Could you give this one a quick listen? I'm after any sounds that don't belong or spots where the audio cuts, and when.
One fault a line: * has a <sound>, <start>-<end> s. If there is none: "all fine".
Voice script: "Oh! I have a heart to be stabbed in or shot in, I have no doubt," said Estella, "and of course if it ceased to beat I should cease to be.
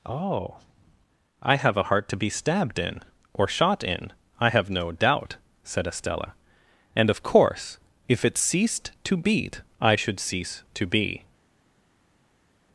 all fine